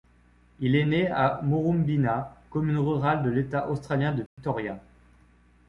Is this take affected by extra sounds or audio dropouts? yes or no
yes